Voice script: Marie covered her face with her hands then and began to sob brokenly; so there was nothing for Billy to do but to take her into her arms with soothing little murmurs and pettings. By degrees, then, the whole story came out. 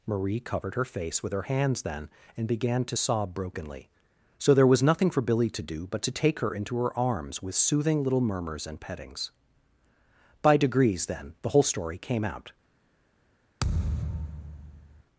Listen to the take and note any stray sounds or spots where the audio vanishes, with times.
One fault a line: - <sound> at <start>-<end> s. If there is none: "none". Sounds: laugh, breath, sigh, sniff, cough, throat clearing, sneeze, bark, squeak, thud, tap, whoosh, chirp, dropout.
- thud at 13.6-15.0 s